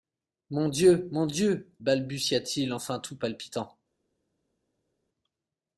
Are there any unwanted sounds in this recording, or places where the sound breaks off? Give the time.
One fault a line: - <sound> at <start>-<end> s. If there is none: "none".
none